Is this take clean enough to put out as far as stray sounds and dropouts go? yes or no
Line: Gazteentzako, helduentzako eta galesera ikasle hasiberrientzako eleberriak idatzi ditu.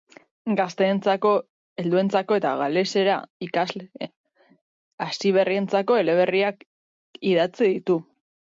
yes